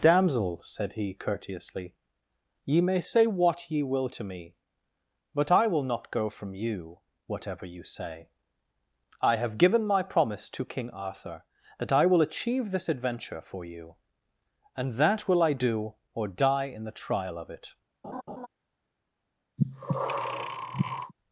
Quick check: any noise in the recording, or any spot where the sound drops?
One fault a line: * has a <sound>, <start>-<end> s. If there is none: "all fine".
* has a laugh, 18.0-18.5 s
* has a breath, 19.6-21.1 s